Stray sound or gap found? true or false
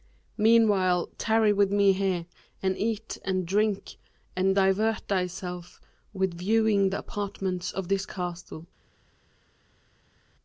false